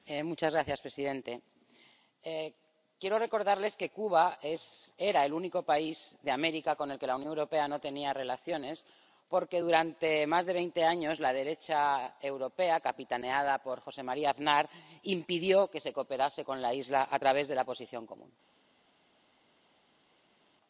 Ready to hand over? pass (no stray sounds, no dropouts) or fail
pass